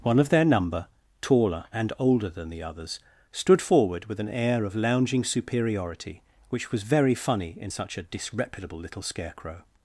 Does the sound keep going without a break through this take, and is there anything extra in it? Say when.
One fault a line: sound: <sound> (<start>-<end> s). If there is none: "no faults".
no faults